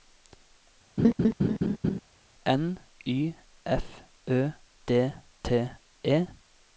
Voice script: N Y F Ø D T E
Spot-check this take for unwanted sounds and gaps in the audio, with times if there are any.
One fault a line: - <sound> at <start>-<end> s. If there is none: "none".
- laugh at 1.0-2.0 s